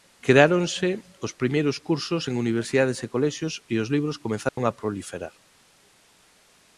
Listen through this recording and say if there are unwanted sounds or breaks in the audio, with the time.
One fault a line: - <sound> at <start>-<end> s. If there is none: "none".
- dropout at 4.5-4.6 s